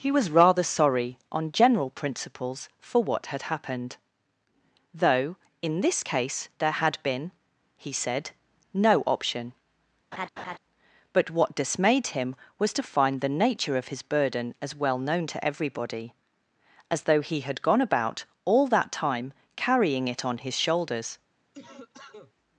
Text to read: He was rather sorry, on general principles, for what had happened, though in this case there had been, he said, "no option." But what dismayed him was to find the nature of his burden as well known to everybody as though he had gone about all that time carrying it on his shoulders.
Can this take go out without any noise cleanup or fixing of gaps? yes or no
no